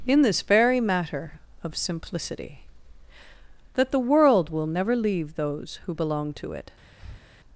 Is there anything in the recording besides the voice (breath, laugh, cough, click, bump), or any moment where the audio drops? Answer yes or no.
yes